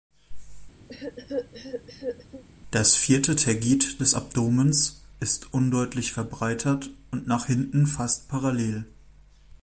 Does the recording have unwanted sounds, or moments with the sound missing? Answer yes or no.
yes